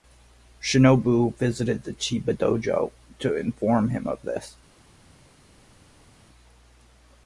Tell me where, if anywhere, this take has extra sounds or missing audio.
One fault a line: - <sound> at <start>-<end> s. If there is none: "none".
none